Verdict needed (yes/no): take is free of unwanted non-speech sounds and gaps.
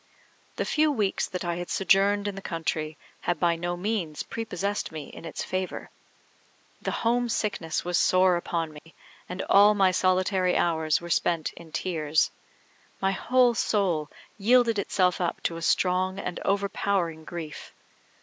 no